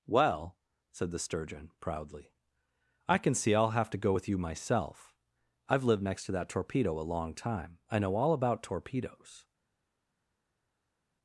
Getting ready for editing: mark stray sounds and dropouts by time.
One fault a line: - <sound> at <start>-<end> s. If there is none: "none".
none